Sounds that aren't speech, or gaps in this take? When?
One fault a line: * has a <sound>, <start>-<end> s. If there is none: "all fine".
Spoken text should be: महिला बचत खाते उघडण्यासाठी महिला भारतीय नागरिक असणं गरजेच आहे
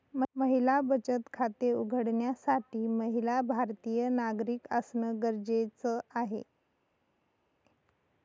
all fine